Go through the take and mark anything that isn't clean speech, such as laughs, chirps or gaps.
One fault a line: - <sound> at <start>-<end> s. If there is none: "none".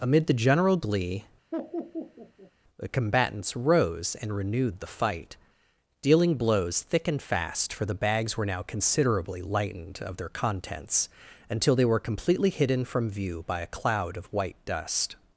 - laugh at 1.5-2.5 s